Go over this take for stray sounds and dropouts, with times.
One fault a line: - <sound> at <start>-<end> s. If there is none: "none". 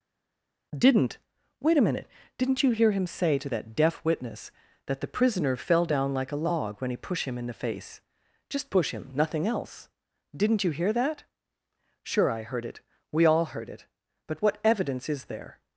none